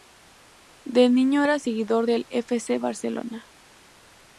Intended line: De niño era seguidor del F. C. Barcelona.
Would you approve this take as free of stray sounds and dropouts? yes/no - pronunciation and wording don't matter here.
yes